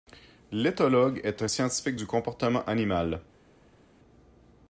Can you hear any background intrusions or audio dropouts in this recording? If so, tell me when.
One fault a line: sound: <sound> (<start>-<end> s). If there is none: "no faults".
no faults